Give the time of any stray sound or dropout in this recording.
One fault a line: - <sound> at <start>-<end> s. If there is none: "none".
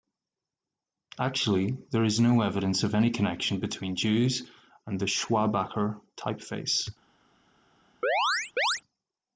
- chirp at 8.0-8.8 s